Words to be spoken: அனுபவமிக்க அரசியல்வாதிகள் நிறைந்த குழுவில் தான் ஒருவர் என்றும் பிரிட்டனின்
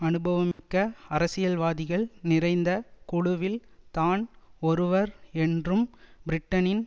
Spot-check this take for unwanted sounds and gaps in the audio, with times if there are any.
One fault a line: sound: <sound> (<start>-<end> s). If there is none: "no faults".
sound: dropout (0.5-0.6 s)